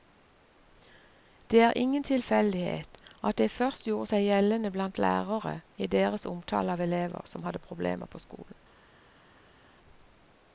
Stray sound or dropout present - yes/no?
no